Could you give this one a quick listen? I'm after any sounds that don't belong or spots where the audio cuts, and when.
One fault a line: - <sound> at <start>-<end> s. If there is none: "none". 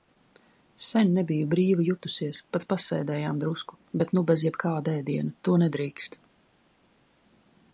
none